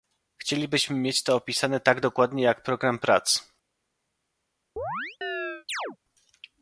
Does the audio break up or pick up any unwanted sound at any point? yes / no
yes